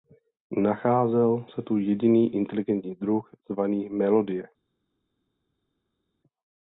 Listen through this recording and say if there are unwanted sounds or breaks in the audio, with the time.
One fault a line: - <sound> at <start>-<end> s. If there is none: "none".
none